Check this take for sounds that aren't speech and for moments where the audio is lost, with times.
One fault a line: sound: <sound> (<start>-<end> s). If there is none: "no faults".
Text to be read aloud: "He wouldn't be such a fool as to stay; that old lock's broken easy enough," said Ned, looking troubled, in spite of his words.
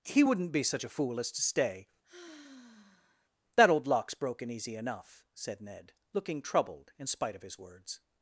sound: sigh (2.0-3.3 s)